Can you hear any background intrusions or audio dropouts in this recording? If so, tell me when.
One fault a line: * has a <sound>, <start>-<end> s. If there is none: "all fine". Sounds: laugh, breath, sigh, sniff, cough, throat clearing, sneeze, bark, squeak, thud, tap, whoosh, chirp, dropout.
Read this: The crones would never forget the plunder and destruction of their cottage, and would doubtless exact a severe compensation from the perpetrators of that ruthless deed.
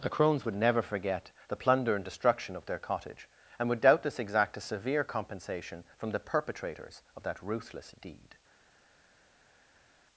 all fine